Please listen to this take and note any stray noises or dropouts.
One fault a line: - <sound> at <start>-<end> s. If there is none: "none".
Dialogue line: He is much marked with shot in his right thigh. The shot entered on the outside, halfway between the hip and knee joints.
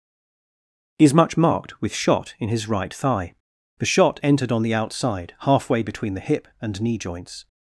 none